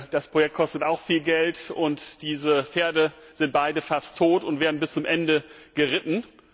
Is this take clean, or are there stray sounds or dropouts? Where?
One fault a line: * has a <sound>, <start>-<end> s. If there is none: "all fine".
all fine